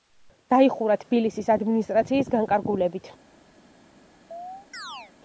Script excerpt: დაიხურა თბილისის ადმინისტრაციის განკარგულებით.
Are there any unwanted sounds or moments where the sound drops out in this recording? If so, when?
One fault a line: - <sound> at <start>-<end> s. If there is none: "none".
- chirp at 4.3-5.1 s